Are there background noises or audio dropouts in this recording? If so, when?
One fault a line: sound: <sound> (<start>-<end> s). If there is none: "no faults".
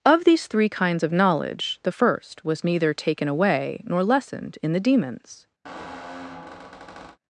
sound: squeak (5.6-7.2 s)